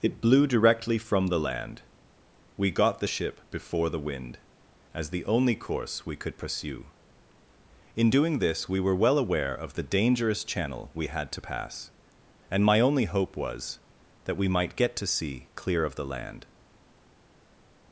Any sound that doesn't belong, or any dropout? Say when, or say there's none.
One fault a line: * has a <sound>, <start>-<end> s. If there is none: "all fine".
all fine